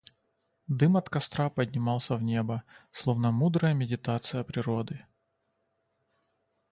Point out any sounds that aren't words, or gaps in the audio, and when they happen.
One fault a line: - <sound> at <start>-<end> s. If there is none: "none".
none